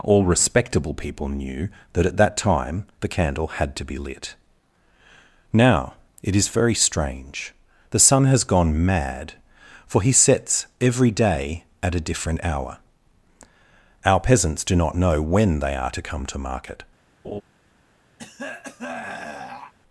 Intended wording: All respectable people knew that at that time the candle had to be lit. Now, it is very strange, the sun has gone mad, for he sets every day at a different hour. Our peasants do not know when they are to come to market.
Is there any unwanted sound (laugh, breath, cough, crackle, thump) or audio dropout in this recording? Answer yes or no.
yes